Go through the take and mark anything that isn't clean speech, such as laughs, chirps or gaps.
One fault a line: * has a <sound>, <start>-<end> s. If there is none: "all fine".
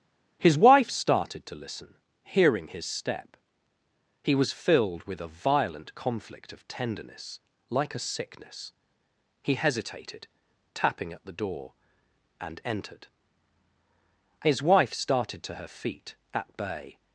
all fine